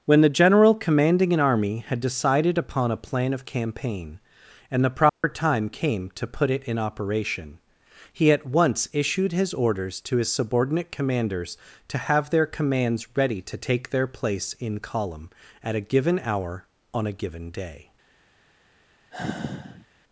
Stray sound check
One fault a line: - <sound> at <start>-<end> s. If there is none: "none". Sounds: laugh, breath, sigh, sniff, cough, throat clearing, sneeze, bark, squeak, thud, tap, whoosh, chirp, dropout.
- dropout at 5.1-5.2 s
- sigh at 19.1-19.9 s